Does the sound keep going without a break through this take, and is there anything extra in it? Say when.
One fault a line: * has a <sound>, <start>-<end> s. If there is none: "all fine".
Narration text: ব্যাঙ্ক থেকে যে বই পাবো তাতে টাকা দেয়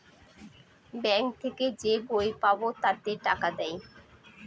all fine